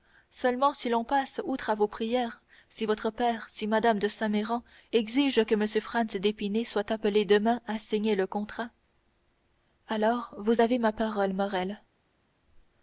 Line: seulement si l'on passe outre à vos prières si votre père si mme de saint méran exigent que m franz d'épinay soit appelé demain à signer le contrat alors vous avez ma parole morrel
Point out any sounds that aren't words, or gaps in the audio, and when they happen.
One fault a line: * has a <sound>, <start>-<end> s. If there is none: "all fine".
all fine